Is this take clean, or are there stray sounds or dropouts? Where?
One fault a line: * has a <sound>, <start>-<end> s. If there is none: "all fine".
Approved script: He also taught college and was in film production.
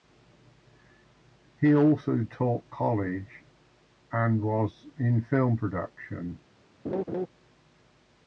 * has a laugh, 6.8-7.3 s